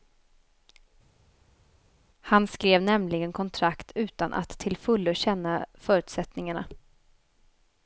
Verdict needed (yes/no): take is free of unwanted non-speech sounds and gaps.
yes